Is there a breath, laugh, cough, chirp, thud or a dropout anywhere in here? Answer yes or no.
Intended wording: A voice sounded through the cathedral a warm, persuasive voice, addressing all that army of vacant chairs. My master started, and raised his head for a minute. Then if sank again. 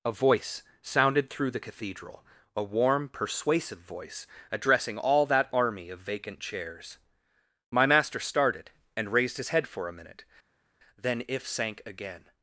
no